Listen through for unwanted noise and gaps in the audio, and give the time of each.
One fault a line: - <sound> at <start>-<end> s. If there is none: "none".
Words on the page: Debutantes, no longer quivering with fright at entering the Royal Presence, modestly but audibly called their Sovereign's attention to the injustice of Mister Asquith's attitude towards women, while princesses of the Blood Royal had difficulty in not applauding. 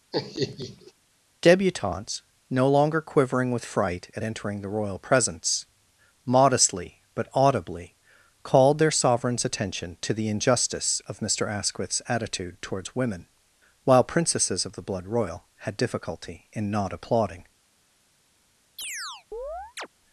- laugh at 0.1-0.9 s
- chirp at 18.8-19.9 s